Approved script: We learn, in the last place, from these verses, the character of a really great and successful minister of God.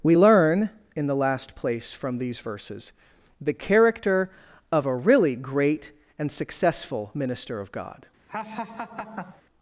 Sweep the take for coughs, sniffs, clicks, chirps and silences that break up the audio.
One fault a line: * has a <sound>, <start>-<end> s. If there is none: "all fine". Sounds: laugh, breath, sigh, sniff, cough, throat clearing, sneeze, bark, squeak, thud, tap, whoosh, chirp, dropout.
* has a laugh, 8.3-9.4 s